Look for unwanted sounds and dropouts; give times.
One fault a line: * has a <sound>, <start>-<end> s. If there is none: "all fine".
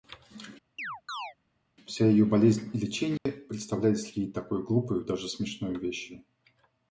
* has a chirp, 0.8-1.3 s
* has a dropout, 3.2-3.3 s